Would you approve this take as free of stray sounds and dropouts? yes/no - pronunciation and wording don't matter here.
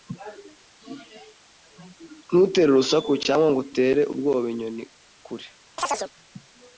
no